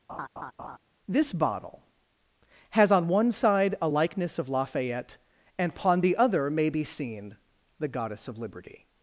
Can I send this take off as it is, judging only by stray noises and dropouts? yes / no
no